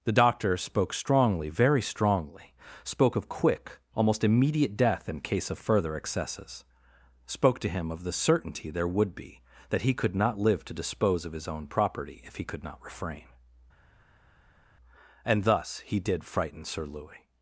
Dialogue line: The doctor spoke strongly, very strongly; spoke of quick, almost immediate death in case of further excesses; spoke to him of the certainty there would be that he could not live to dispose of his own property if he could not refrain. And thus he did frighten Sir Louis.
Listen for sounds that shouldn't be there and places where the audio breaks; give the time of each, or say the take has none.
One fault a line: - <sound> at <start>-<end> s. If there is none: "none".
none